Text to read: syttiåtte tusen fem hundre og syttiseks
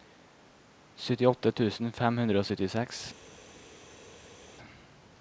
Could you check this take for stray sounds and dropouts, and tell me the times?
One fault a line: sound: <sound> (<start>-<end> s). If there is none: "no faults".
no faults